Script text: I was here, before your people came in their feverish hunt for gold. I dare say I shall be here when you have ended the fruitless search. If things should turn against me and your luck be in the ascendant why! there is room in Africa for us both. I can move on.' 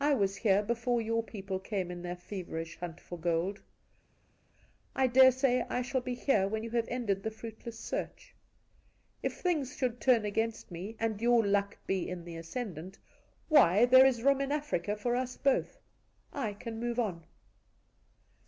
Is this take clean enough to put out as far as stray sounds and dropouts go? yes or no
yes